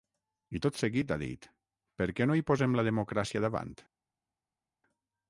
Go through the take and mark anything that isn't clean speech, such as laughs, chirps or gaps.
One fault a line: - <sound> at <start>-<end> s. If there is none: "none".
none